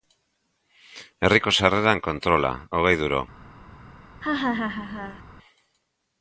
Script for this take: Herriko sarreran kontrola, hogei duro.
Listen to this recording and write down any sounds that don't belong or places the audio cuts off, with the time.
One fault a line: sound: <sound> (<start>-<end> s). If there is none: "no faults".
sound: laugh (4.2-5.2 s)